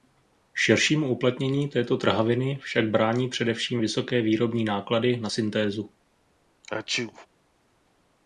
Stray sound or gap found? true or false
true